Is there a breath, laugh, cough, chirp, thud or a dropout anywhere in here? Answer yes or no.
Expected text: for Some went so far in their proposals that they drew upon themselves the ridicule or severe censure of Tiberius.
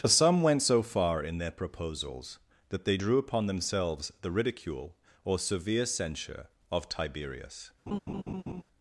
yes